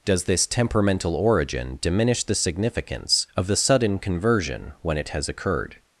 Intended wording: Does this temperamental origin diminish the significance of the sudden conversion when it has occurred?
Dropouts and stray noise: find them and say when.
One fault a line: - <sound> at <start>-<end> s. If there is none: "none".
none